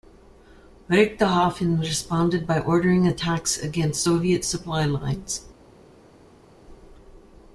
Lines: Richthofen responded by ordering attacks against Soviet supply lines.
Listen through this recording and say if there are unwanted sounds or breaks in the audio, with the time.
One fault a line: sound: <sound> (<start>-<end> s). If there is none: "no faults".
no faults